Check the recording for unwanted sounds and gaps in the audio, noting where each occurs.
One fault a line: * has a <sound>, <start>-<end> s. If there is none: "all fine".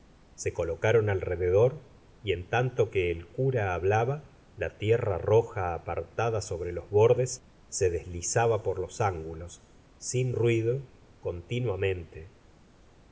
all fine